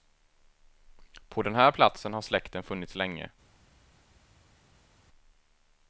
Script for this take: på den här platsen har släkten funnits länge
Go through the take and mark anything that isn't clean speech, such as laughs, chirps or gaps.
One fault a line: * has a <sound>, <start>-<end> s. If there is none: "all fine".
all fine